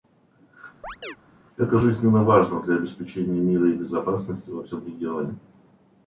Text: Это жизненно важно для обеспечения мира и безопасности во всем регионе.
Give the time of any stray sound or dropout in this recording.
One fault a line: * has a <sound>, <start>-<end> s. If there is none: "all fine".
* has a chirp, 0.8-1.2 s